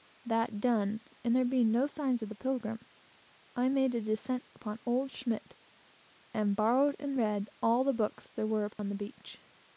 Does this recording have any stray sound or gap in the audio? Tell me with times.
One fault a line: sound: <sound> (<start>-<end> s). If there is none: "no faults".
sound: dropout (8.7-8.8 s)